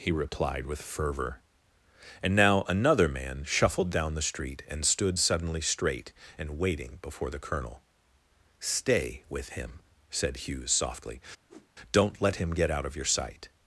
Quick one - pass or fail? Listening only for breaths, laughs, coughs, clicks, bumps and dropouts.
fail